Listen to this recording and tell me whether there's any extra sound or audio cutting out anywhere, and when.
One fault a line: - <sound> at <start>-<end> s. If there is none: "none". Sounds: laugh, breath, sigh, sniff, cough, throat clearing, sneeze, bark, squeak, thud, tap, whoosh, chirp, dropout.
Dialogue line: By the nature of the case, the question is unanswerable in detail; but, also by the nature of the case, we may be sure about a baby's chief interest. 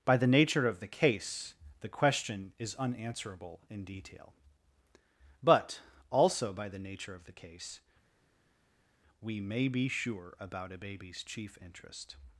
none